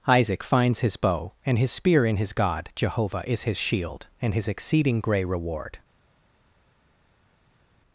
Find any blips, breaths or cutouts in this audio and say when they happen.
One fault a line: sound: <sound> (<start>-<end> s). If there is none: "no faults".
no faults